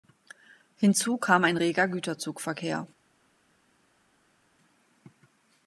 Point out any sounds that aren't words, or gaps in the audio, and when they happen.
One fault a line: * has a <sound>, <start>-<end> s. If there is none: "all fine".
all fine